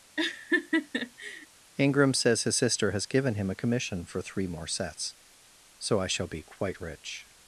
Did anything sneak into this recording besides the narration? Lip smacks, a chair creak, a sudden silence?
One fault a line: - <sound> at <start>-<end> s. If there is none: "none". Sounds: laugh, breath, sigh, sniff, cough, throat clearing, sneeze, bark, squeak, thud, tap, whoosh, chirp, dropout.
- laugh at 0.2-1.5 s